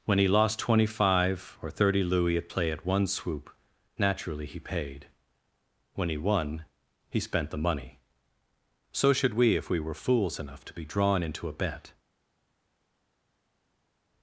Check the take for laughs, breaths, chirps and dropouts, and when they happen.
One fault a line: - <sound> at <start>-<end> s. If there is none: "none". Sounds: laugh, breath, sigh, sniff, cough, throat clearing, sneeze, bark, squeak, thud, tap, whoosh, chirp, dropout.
none